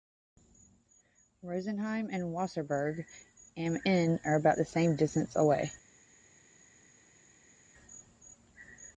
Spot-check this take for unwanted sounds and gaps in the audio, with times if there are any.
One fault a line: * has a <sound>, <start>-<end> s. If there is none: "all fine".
all fine